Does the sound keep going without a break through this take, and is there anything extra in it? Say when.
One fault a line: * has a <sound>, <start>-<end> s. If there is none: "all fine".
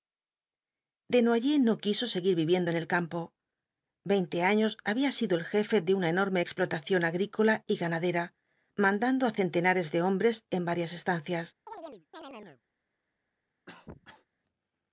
* has a chirp, 11.7-12.6 s
* has a cough, 13.7-14.3 s